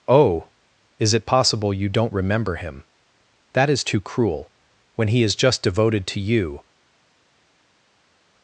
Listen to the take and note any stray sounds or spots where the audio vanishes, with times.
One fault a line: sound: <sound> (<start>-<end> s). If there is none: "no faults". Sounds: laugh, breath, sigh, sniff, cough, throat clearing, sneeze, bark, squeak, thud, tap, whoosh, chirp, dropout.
no faults